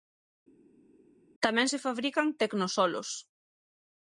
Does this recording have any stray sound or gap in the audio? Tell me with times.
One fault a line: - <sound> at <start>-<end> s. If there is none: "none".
none